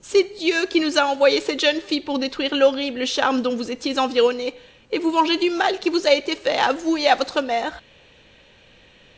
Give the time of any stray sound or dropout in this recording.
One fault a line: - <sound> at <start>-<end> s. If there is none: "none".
none